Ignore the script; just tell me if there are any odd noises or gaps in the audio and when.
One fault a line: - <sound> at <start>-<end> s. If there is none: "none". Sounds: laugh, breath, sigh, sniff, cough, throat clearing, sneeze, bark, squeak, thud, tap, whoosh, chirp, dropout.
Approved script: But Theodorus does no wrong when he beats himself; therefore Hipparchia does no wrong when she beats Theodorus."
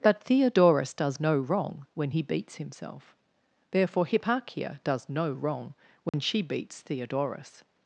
- dropout at 6.1-6.1 s